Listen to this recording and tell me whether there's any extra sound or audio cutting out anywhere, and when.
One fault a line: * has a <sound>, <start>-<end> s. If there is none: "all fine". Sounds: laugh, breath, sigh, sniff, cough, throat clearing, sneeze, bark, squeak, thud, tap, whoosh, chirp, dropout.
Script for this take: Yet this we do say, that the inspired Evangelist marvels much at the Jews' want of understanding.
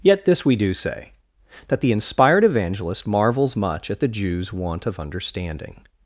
all fine